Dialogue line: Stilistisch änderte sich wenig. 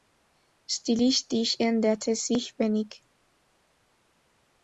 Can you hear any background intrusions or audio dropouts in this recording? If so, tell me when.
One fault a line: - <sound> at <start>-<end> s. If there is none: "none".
none